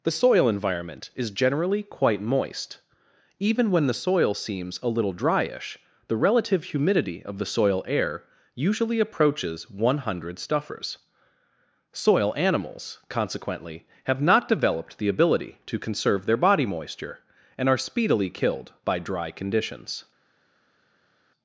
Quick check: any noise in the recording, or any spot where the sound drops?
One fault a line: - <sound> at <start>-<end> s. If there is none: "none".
none